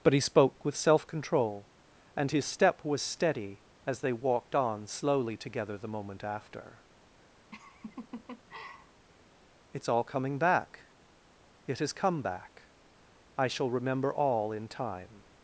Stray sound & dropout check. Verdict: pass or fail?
fail